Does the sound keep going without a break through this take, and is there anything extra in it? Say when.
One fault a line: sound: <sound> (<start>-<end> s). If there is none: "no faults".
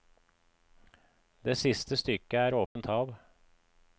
sound: dropout (2.7-2.8 s)